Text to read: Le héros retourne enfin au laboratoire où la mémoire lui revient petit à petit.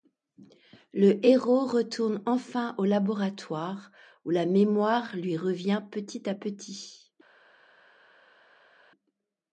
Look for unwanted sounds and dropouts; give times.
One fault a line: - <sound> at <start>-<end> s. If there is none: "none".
none